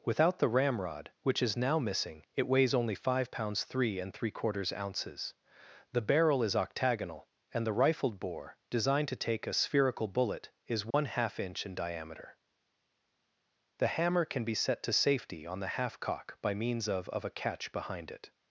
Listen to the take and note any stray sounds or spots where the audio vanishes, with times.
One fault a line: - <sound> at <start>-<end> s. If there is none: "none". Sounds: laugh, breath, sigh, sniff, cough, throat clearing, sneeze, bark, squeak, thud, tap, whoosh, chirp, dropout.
- dropout at 10.9-10.9 s